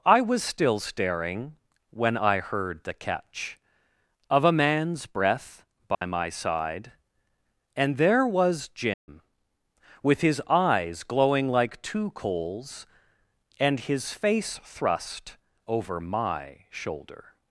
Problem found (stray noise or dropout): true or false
true